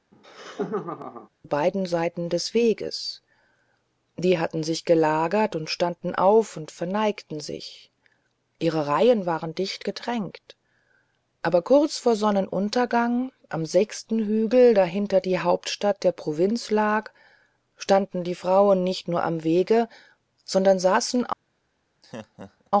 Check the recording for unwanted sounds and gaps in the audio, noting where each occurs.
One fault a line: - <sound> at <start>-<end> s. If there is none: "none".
- laugh at 0.1-1.3 s
- laugh at 22.0-22.7 s